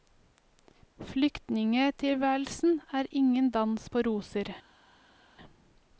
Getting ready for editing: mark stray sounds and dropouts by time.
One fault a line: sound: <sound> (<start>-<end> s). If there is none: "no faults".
no faults